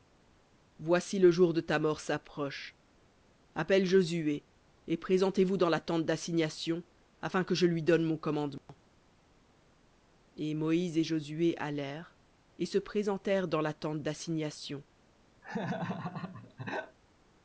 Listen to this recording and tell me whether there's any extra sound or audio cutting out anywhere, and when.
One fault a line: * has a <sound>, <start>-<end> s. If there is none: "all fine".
* has a dropout, 8.6-8.7 s
* has a laugh, 15.4-17.0 s